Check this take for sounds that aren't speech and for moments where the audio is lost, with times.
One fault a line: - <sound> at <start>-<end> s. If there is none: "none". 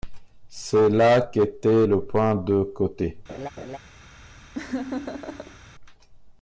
- laugh at 3.3-3.8 s
- laugh at 4.5-5.6 s